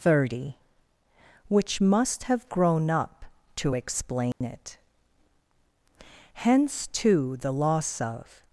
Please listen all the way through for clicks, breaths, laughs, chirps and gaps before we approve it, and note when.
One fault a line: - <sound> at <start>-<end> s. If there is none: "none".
- dropout at 4.3-4.4 s